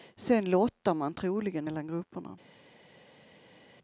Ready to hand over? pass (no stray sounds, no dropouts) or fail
pass